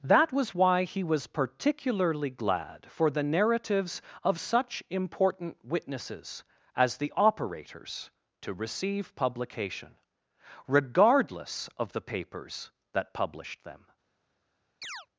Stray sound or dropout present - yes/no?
yes